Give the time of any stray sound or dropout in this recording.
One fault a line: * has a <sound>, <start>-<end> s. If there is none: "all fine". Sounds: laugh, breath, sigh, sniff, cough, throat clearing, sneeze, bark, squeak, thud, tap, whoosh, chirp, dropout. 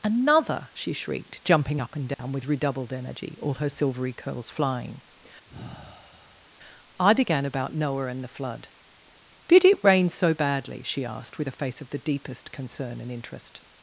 * has a dropout, 2.1-2.2 s
* has a sigh, 5.5-6.5 s